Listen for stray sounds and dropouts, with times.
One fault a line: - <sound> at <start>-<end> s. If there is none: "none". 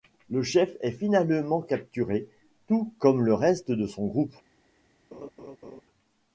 - laugh at 5.1-5.8 s